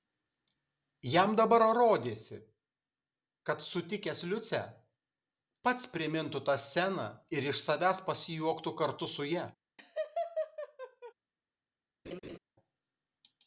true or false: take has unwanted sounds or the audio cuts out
true